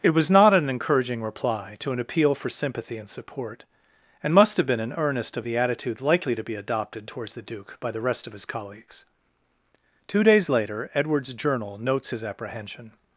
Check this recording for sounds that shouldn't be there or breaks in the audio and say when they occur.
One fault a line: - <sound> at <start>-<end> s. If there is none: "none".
none